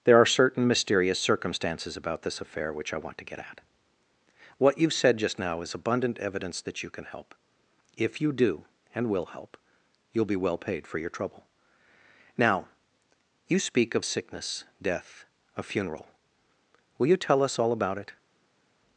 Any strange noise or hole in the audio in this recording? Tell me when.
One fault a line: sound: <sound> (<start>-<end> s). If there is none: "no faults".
no faults